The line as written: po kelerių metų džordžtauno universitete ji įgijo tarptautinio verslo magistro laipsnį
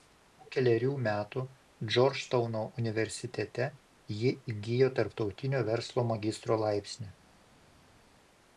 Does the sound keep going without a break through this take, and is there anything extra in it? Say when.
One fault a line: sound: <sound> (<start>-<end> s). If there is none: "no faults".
no faults